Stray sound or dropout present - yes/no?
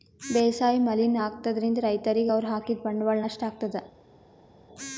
no